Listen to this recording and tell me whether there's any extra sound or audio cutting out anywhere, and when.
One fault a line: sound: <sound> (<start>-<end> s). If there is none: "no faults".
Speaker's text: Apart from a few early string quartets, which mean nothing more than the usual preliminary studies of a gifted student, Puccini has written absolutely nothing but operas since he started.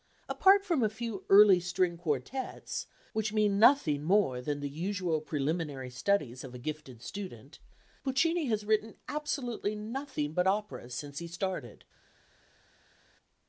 no faults